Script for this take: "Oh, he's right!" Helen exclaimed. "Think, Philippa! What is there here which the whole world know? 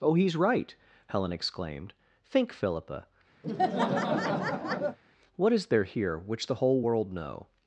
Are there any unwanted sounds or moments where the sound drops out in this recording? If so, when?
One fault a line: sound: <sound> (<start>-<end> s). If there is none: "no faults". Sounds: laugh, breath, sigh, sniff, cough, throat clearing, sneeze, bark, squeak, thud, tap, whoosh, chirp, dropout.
sound: laugh (3.4-5.0 s)